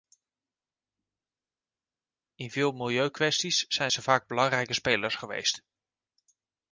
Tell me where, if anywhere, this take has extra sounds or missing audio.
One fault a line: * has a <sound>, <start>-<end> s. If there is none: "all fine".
all fine